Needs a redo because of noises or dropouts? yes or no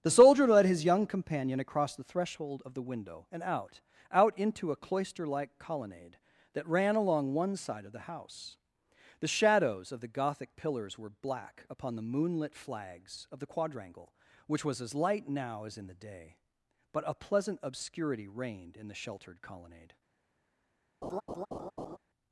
yes